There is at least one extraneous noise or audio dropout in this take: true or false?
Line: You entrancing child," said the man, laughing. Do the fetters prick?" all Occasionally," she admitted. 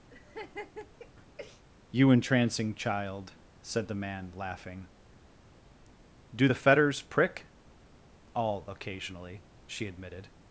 true